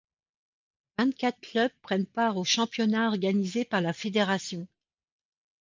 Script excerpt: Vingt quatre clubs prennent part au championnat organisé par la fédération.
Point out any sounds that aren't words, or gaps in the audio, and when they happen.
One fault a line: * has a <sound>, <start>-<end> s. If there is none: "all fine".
all fine